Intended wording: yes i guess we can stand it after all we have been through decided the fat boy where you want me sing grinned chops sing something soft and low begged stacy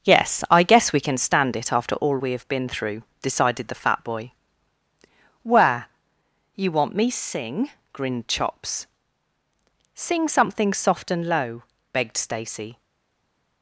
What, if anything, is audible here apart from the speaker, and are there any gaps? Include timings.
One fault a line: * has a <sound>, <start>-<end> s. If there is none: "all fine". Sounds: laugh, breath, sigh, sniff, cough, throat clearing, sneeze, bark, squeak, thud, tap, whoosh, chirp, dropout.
all fine